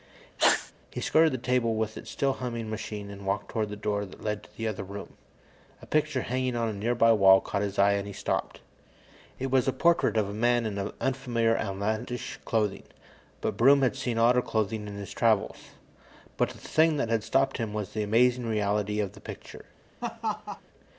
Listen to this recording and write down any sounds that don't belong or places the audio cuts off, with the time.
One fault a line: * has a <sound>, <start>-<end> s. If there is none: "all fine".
* has a sneeze, 0.4-0.7 s
* has a laugh, 20.0-20.6 s